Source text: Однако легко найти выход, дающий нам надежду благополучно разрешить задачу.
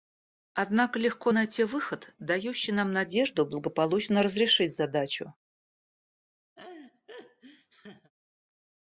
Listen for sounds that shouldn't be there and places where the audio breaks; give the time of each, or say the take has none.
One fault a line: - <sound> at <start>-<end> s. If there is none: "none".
- laugh at 6.6-8.1 s